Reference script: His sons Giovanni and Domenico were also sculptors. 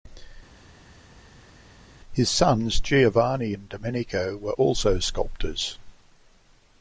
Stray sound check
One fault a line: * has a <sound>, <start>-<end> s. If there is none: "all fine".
all fine